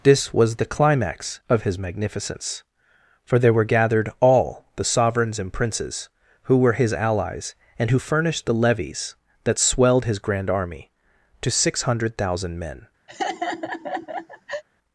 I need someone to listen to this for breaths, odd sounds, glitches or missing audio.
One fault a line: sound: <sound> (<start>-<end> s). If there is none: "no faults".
sound: laugh (13.1-14.6 s)